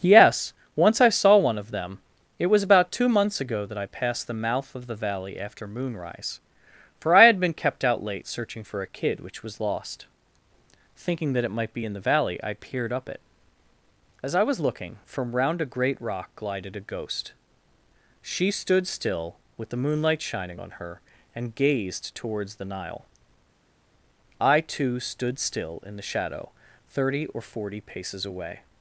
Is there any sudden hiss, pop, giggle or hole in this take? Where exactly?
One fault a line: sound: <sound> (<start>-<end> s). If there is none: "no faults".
no faults